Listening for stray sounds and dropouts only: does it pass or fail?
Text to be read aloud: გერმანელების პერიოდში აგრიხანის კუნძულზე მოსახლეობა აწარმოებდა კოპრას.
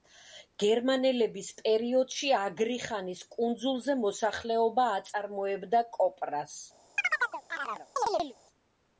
fail